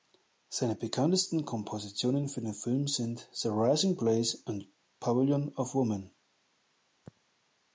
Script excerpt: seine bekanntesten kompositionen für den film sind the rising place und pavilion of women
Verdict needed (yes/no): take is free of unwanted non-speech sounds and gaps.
yes